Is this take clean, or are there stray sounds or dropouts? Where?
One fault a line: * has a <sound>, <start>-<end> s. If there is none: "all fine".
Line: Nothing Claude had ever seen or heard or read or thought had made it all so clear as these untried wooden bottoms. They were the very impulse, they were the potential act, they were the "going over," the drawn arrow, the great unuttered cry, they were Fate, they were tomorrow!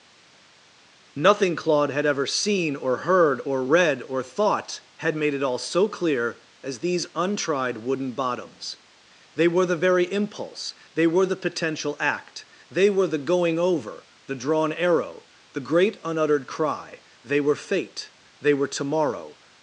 all fine